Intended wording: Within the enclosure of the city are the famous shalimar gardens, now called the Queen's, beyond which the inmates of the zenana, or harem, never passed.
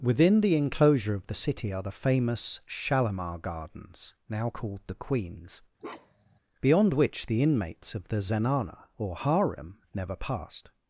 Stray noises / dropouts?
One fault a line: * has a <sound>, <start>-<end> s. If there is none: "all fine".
* has a bark, 5.8-6.4 s